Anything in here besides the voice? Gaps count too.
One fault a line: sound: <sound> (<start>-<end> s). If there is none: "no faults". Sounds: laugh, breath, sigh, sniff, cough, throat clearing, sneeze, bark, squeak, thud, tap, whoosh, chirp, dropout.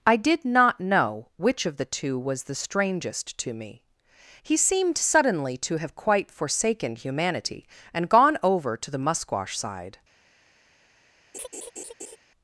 sound: laugh (11.3-12.2 s)